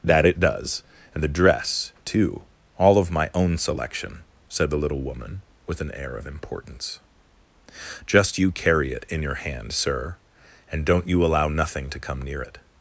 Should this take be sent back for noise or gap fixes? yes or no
no